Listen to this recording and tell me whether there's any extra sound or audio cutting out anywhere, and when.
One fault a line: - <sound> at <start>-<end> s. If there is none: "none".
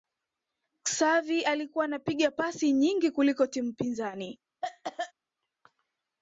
- cough at 4.6-5.1 s